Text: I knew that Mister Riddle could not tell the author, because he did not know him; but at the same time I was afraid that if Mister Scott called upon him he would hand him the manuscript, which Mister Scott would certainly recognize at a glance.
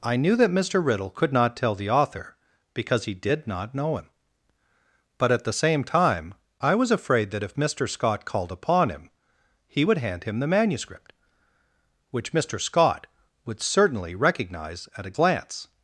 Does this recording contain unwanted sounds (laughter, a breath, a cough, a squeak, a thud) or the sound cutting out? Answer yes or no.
no